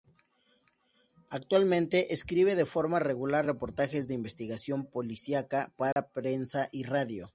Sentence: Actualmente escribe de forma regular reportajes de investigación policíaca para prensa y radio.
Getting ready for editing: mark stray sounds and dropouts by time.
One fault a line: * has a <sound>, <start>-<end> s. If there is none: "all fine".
* has a dropout, 5.9-6.0 s